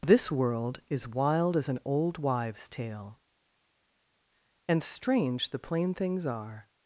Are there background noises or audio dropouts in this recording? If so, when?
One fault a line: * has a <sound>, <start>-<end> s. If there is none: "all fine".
all fine